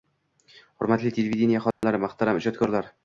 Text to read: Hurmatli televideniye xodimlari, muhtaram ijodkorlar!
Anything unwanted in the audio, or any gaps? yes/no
yes